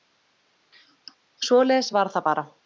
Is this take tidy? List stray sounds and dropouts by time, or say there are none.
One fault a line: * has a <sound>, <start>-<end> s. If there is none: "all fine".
all fine